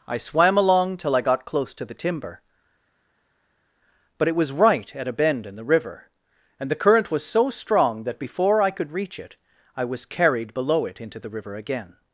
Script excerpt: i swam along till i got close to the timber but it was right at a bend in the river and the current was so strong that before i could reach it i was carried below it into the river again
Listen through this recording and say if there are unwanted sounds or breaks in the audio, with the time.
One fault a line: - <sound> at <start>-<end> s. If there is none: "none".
none